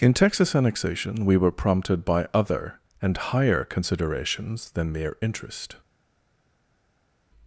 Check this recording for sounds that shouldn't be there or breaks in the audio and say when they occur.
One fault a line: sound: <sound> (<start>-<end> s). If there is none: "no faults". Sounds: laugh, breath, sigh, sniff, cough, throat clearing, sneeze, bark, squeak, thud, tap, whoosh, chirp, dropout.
no faults